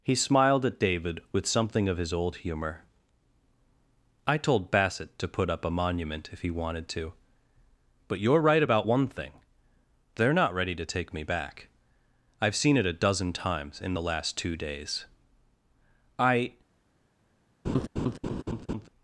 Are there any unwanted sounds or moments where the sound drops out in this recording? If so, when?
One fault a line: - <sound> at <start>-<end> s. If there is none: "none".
- laugh at 17.6-18.9 s